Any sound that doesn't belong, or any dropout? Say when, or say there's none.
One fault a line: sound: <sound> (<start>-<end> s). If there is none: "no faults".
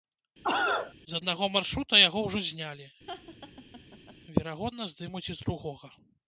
sound: cough (0.4-0.9 s)
sound: laugh (3.1-4.2 s)